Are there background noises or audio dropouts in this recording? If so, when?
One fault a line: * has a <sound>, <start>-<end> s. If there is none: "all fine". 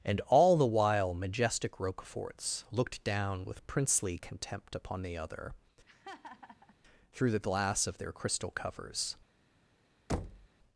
* has a laugh, 5.9-6.8 s
* has a thud, 10.1-10.5 s